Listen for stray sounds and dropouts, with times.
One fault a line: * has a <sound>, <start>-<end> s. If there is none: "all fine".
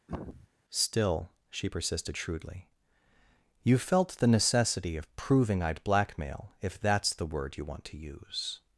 * has a throat clearing, 0.1-0.5 s